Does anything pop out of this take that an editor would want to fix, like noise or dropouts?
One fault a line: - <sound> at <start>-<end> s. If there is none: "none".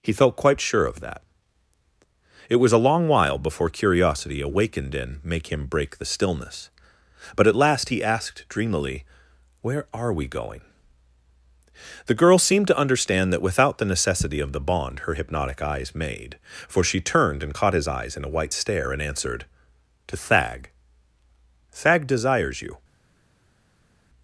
none